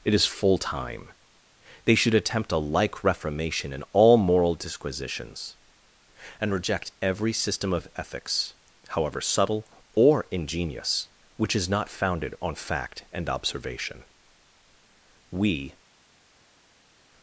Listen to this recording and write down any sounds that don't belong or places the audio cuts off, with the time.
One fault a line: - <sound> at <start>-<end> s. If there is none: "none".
none